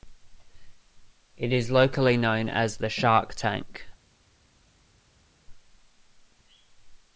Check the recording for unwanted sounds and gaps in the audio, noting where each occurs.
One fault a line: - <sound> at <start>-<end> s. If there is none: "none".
none